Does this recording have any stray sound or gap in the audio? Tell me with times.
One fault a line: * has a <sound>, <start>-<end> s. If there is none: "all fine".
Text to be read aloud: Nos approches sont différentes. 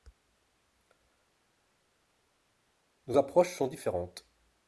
all fine